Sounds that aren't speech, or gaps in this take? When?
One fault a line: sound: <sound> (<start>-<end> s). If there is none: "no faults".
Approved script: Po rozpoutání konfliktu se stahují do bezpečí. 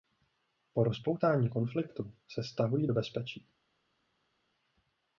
no faults